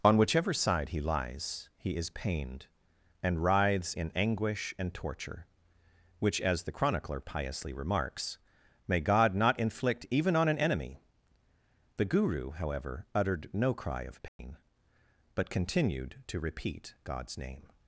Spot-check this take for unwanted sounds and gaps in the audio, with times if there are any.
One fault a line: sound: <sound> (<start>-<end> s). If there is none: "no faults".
sound: dropout (14.3-14.4 s)